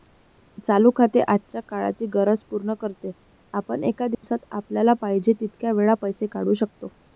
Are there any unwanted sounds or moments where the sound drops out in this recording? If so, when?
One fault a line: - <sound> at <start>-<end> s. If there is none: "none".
- dropout at 4.1-4.2 s